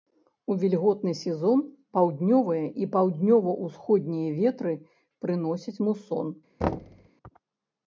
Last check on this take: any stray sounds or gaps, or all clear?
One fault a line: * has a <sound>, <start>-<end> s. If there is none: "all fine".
* has a thud, 6.6-7.1 s